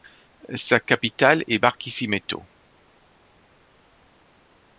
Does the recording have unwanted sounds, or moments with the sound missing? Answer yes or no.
no